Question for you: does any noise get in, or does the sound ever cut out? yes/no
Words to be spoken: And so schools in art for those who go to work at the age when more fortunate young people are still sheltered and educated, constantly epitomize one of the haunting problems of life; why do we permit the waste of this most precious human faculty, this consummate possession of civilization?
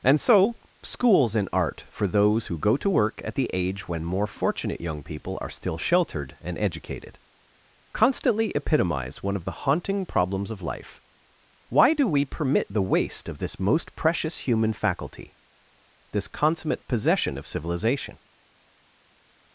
no